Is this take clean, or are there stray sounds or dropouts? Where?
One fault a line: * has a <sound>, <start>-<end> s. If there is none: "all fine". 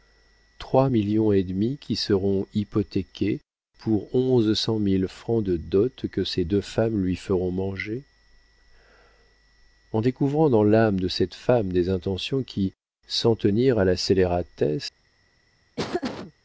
* has a laugh, 15.8-16.3 s